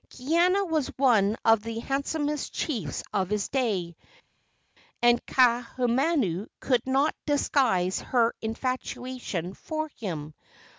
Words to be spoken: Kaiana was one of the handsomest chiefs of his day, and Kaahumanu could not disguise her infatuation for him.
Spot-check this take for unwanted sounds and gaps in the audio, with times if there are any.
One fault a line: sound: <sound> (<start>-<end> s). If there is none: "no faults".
no faults